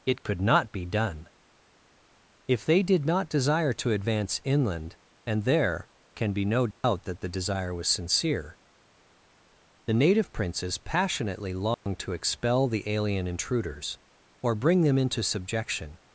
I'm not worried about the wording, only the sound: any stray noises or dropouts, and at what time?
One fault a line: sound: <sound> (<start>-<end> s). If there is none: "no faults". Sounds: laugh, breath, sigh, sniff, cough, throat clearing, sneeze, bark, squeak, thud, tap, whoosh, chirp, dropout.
sound: dropout (6.7-6.8 s)
sound: dropout (11.7-11.9 s)